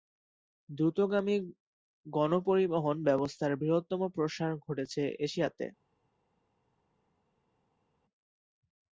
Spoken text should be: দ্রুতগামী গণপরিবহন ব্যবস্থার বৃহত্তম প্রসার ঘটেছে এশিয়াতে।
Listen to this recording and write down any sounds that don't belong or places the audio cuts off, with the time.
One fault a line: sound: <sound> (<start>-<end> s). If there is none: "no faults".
no faults